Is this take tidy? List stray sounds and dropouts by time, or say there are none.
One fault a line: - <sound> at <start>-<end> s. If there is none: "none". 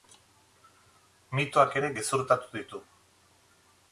none